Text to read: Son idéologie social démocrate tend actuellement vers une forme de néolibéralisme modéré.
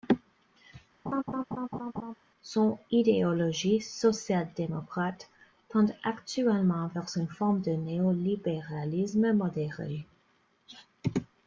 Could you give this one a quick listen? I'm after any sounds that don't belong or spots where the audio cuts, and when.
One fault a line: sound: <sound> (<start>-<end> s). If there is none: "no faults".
sound: laugh (1.1-2.1 s)